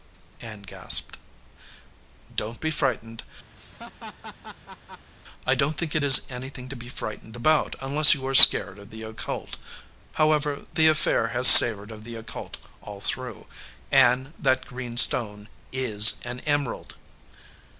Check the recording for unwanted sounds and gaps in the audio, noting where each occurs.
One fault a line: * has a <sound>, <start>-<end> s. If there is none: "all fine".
* has a laugh, 3.6-5.1 s